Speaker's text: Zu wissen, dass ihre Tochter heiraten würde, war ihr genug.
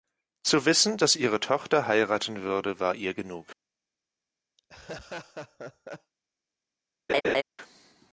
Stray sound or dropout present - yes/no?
yes